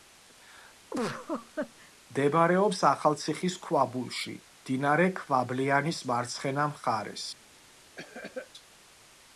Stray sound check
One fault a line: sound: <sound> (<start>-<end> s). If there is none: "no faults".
sound: laugh (0.9-1.9 s)
sound: cough (8.0-8.5 s)